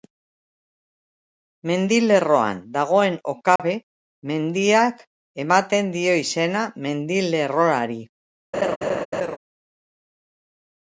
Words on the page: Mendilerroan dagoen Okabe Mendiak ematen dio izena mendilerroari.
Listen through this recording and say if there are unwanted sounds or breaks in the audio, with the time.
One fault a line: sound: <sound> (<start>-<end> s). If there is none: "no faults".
sound: dropout (3.6-3.6 s)
sound: laugh (8.5-9.4 s)